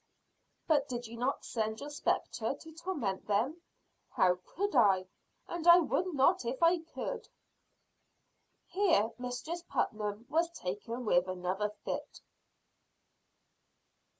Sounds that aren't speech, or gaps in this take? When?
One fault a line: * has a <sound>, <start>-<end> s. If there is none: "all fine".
all fine